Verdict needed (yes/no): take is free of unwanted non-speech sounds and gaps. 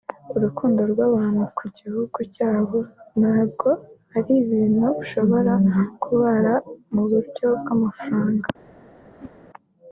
no